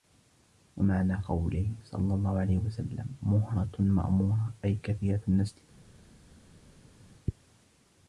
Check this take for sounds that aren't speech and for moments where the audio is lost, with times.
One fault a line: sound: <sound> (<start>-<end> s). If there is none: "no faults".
no faults